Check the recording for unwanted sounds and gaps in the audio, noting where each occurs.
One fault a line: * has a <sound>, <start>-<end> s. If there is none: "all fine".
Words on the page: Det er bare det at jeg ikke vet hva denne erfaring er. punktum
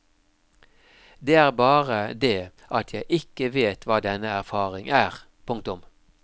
all fine